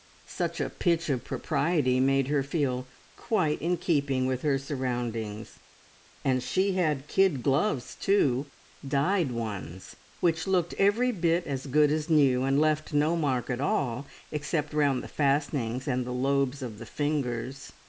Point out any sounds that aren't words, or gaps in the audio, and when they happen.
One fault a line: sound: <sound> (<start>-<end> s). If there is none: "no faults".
no faults